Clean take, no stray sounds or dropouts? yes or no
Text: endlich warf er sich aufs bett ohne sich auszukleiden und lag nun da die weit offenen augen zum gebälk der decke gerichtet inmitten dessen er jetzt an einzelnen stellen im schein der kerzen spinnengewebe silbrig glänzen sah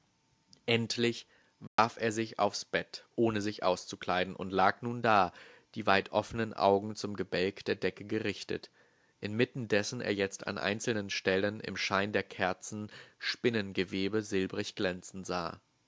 no